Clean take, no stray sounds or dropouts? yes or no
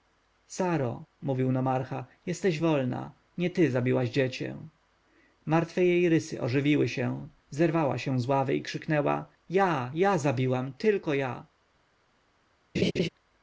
no